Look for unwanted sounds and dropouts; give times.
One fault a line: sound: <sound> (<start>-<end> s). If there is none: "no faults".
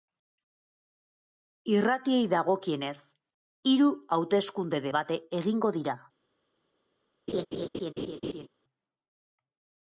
sound: laugh (7.3-8.5 s)